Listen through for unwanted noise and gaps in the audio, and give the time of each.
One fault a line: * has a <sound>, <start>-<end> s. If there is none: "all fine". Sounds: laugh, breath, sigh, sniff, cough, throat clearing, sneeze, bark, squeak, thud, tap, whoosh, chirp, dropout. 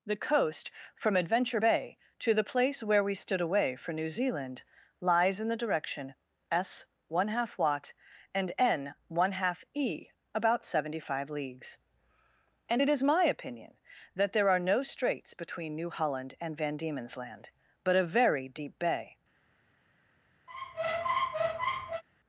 * has a squeak, 20.5-22.0 s